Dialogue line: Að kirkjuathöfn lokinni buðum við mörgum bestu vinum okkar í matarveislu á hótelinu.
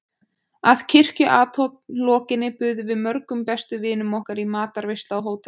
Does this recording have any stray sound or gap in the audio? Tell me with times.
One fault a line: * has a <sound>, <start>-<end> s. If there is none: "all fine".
all fine